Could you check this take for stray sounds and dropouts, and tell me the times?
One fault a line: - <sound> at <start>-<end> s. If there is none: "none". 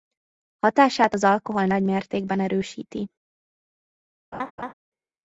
- laugh at 4.3-4.7 s